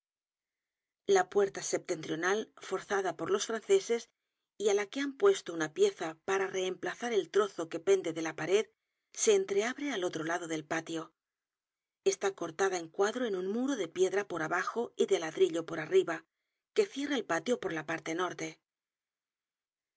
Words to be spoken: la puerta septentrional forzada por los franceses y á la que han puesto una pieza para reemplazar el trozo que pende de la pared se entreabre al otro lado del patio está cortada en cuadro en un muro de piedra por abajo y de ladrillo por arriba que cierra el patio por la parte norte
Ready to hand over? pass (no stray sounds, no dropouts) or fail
pass